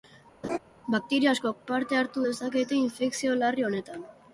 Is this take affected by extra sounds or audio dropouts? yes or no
yes